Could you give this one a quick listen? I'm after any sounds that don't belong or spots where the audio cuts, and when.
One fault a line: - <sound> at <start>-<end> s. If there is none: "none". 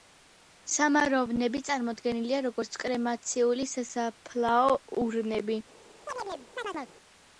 - chirp at 6.1-6.9 s